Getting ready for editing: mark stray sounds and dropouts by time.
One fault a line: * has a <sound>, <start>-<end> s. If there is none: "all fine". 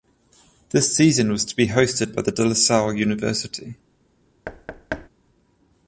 * has a thud, 4.5-5.1 s